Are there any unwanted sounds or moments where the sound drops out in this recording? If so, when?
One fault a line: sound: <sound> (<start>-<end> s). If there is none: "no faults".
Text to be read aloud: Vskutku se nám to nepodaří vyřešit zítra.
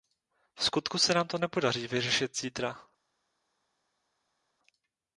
no faults